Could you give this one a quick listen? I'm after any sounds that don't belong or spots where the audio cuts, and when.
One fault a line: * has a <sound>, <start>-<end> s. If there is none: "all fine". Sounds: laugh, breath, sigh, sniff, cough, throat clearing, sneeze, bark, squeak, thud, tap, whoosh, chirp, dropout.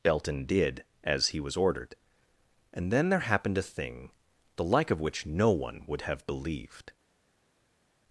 all fine